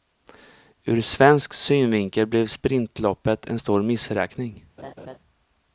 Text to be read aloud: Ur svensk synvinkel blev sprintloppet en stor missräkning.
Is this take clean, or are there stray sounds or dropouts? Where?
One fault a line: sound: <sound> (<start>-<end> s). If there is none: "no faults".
sound: laugh (4.8-5.2 s)